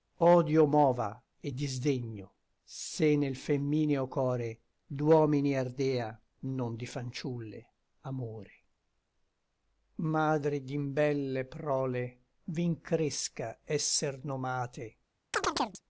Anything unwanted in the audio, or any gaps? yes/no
yes